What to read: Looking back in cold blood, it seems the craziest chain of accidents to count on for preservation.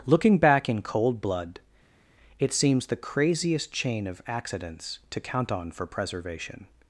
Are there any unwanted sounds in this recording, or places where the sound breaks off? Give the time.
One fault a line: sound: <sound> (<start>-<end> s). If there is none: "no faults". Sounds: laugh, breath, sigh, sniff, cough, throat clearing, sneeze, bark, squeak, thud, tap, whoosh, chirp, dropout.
no faults